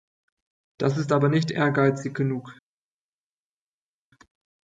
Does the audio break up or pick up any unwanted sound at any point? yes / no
no